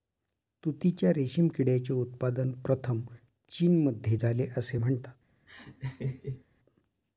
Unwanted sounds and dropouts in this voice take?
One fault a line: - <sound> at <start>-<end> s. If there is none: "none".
- laugh at 5.5-6.4 s